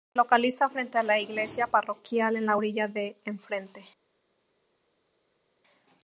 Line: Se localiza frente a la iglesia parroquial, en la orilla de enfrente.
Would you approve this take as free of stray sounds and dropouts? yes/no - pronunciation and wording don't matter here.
yes